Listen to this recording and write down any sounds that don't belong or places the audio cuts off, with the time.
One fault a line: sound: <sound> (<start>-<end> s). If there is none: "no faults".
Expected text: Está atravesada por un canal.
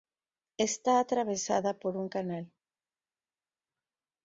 no faults